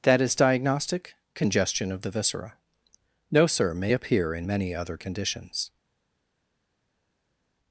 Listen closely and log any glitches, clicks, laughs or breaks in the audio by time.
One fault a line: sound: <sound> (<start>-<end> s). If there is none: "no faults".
no faults